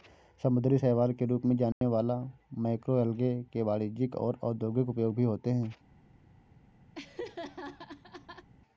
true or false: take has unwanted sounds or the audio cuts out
true